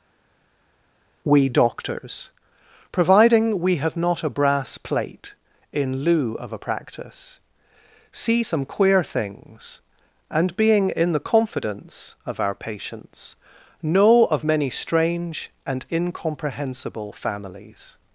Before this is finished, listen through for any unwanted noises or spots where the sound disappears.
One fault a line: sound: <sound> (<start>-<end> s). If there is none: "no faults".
no faults